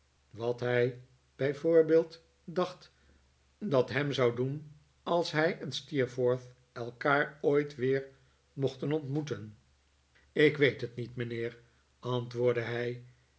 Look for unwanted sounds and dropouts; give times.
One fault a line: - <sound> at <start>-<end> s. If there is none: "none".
none